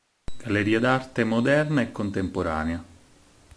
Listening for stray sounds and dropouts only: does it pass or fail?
pass